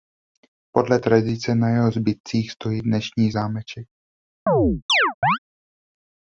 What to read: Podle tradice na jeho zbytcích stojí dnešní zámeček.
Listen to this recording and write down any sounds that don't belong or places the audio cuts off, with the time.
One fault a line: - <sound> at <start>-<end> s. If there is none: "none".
- chirp at 4.5-5.4 s